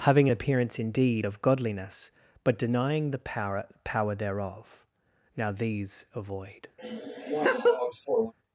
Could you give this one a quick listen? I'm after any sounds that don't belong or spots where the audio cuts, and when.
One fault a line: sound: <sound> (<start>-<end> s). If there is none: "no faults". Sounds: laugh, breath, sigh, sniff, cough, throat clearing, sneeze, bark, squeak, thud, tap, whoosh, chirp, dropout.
sound: laugh (6.8-8.3 s)